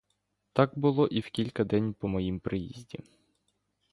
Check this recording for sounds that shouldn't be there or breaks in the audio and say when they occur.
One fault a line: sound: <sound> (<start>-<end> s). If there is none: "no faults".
no faults